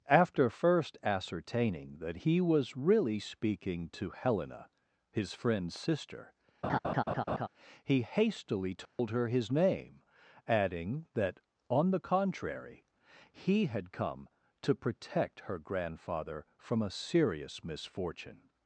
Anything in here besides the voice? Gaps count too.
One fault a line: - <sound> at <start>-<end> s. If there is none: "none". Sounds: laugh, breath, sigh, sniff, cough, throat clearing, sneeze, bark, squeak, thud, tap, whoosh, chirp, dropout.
- laugh at 6.6-7.5 s
- dropout at 8.9-9.0 s